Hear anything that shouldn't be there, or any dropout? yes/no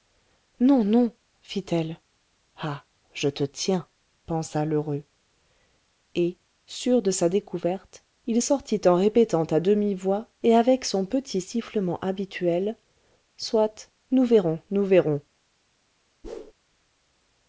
yes